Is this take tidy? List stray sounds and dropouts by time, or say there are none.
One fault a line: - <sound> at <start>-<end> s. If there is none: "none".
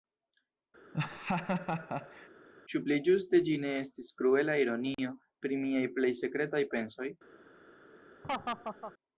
- laugh at 0.9-2.3 s
- laugh at 8.2-8.9 s